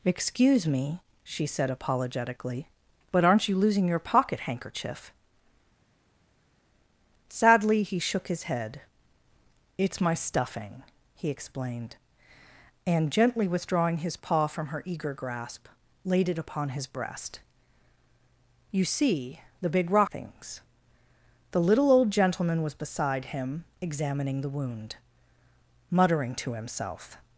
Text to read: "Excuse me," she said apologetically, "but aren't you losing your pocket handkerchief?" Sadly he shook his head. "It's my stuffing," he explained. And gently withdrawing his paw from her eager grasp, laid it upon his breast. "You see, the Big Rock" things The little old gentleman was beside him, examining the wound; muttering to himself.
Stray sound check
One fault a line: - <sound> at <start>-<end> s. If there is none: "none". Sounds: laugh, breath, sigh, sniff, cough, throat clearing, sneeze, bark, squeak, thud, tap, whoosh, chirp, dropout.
none